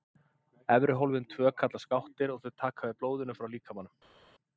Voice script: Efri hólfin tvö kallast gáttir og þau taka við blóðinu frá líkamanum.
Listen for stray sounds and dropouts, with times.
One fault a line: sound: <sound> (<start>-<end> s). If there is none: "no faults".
no faults